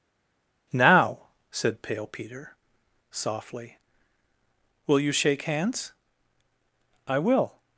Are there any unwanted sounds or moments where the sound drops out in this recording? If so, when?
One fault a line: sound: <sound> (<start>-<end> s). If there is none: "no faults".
no faults